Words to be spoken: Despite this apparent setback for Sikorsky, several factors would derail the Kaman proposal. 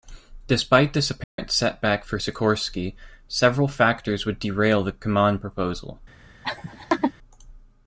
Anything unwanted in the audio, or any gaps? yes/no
yes